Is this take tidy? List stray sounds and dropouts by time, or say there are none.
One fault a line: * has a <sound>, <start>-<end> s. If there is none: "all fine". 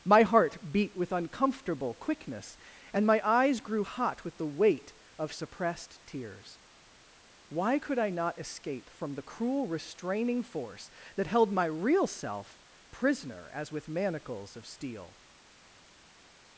all fine